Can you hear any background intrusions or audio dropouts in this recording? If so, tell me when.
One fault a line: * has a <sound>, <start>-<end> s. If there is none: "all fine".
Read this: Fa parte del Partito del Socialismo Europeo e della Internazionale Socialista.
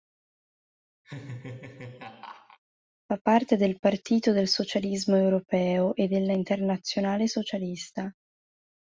* has a laugh, 1.0-2.6 s